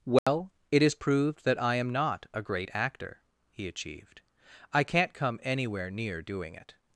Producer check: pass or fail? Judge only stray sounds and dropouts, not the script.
fail